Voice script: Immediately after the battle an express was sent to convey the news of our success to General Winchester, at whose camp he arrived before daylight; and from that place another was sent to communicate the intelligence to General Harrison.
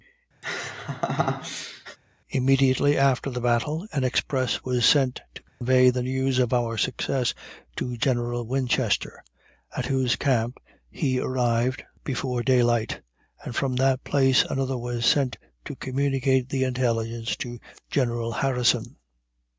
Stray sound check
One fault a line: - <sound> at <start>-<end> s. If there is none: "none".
- laugh at 0.4-2.0 s
- dropout at 5.5-5.6 s